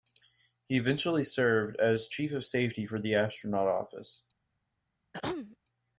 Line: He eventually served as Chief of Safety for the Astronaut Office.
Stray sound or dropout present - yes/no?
yes